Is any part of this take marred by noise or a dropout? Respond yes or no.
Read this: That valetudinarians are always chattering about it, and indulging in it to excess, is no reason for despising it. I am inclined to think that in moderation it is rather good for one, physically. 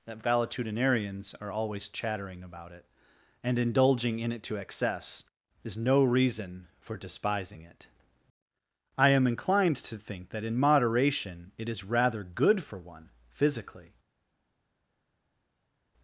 no